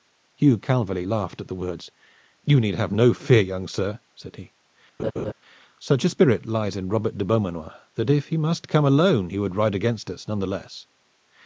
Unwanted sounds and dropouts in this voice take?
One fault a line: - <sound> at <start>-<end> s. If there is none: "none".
- laugh at 5.0-5.3 s